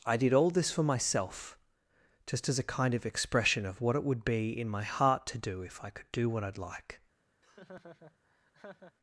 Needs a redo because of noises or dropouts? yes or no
yes